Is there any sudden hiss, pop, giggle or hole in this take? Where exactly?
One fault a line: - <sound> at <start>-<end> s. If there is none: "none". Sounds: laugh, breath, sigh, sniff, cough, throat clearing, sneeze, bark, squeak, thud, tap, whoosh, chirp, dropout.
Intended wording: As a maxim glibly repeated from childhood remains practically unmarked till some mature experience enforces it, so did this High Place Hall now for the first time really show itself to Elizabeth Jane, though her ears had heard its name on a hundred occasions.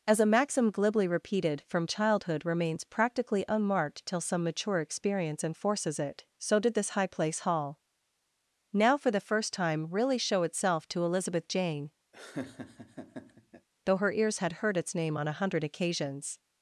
- laugh at 12.1-13.7 s